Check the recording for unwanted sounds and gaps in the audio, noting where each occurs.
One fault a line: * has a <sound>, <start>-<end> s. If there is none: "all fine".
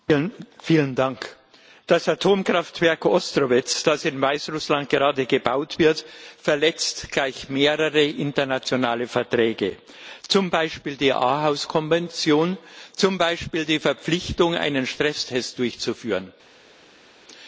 all fine